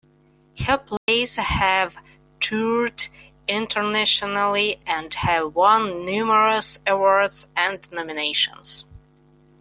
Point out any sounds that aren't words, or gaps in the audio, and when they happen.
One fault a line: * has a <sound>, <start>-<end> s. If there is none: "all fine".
* has a dropout, 1.0-1.1 s